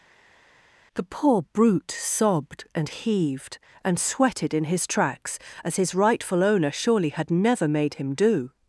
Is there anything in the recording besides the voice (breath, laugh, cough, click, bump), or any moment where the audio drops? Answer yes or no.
no